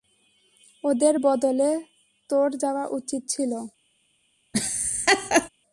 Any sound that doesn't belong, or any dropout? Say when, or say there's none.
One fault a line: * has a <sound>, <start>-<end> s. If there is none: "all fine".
* has a laugh, 4.5-5.5 s